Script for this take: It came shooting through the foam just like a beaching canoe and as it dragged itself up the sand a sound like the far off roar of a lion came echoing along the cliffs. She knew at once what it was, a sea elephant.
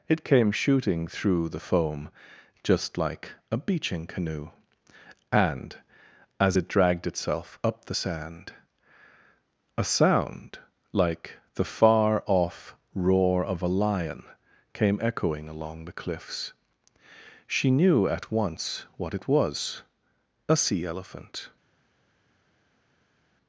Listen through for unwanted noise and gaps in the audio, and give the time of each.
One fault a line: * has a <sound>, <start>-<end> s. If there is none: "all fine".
all fine